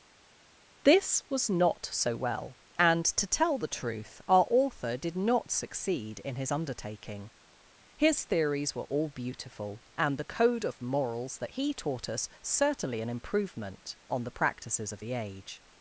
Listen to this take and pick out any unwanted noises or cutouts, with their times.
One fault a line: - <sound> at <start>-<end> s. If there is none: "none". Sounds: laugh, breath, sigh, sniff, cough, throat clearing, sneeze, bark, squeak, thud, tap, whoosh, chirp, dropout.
none